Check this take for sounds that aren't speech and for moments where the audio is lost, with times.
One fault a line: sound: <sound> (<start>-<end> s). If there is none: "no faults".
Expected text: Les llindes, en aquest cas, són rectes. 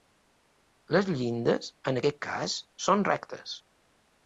no faults